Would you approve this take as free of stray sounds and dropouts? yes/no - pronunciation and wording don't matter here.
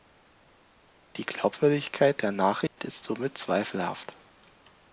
no